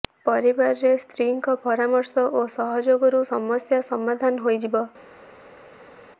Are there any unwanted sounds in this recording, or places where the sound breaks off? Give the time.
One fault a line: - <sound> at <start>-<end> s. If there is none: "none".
none